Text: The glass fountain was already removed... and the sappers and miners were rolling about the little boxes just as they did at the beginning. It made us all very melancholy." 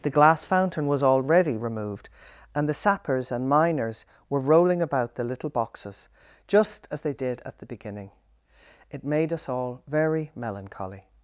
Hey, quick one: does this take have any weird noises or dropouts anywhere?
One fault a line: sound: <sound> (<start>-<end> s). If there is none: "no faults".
no faults